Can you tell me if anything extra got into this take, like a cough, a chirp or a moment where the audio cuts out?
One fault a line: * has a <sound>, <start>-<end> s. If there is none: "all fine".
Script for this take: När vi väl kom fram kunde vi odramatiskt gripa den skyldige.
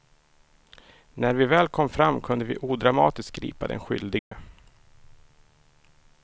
* has a dropout, 4.2-4.3 s